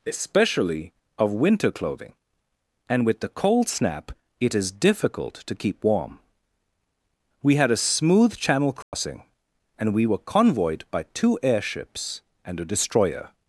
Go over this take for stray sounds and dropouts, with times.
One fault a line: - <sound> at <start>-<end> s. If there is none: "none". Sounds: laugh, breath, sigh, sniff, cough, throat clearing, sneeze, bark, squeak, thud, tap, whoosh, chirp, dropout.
- dropout at 8.8-8.9 s